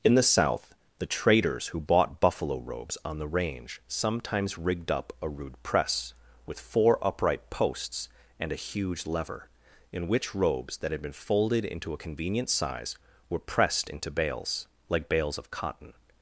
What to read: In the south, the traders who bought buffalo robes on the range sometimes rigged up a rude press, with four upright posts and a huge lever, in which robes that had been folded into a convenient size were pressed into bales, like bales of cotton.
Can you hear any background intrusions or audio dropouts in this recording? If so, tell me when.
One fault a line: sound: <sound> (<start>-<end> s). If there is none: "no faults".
no faults